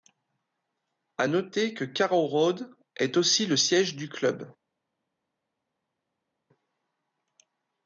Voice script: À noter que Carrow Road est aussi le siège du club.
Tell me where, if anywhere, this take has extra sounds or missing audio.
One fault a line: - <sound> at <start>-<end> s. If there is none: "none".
none